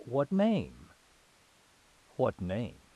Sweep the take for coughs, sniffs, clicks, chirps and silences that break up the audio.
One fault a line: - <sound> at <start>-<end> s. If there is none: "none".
none